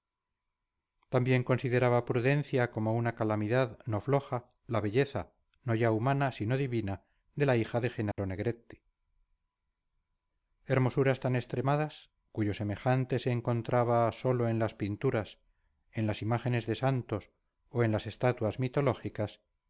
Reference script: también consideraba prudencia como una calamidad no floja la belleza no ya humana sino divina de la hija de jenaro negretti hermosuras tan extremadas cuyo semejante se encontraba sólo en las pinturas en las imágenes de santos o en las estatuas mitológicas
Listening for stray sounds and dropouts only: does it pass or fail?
fail